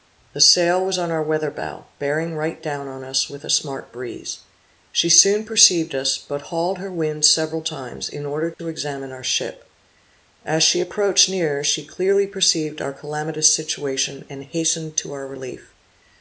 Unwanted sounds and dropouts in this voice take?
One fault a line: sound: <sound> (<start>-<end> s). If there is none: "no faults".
sound: dropout (8.5-8.6 s)